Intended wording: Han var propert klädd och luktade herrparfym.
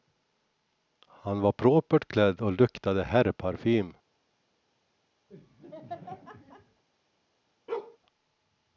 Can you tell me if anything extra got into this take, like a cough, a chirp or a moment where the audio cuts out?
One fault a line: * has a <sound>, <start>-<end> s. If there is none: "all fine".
* has a laugh, 5.3-6.8 s
* has a bark, 7.7-8.0 s